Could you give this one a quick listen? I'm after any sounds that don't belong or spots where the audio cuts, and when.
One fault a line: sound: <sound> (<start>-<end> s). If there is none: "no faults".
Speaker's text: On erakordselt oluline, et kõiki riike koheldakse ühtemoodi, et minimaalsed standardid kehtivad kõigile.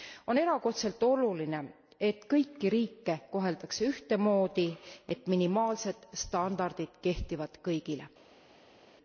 no faults